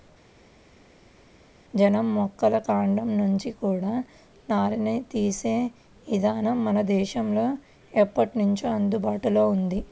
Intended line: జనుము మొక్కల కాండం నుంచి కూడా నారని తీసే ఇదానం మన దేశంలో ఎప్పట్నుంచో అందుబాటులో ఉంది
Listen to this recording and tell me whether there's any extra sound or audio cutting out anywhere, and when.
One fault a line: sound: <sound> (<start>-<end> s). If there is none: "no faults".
no faults